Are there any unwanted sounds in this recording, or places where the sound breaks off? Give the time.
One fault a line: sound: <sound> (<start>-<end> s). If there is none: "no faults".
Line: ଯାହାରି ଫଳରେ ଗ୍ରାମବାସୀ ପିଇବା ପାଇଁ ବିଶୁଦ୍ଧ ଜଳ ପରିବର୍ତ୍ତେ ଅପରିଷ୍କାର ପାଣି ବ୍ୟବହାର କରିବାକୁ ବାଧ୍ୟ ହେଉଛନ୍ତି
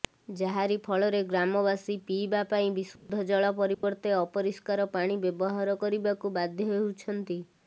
sound: dropout (3.0-3.1 s)
sound: dropout (3.7-3.8 s)